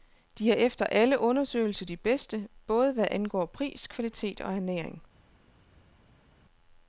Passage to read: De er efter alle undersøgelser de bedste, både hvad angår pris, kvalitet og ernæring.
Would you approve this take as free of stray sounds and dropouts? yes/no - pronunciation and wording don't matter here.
yes